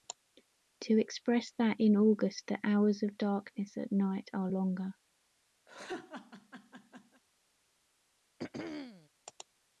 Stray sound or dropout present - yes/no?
yes